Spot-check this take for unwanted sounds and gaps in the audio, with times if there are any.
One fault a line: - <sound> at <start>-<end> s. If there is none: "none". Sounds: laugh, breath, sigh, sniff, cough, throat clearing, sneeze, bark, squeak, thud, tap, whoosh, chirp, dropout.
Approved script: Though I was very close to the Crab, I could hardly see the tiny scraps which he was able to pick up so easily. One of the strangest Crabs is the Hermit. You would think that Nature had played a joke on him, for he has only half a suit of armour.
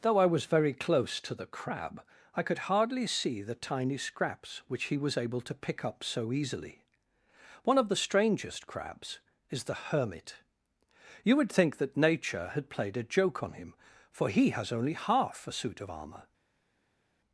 none